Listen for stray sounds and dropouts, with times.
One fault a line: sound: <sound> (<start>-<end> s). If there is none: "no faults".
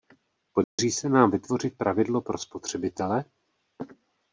sound: dropout (0.6-0.8 s)